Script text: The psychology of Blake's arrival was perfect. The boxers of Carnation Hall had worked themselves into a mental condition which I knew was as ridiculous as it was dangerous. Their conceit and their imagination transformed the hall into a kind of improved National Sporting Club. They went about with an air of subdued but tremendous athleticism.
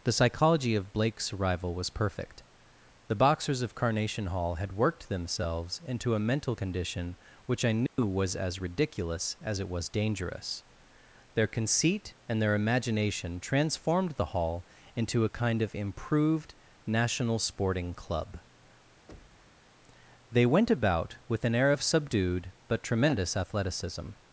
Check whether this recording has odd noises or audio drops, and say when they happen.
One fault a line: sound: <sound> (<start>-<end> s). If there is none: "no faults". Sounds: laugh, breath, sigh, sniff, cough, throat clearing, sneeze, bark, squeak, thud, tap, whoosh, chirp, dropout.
sound: dropout (7.9-8.0 s)
sound: thud (19.1-19.6 s)